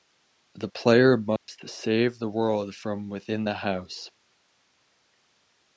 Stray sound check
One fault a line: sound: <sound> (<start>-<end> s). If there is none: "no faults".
sound: dropout (1.4-1.5 s)